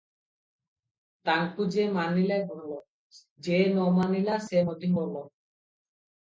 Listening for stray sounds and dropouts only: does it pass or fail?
pass